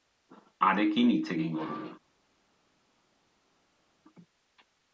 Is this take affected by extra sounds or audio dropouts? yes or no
no